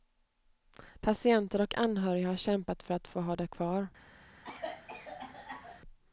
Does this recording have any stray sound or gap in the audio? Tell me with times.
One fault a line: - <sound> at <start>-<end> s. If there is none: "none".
- cough at 4.4-5.8 s